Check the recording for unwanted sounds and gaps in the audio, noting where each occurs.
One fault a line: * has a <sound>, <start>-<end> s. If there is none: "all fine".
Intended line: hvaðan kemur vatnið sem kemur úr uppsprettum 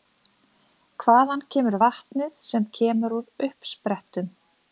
all fine